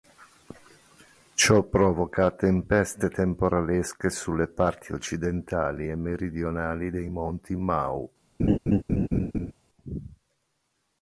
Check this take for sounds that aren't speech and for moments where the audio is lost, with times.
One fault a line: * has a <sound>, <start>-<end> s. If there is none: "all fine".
* has a laugh, 8.4-9.5 s